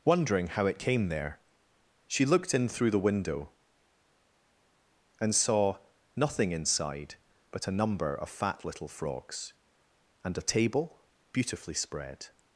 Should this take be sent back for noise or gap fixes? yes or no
no